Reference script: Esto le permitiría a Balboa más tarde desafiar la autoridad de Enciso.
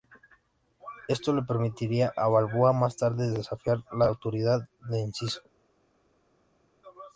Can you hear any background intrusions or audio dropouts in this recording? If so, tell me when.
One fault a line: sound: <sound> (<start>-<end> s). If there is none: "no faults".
no faults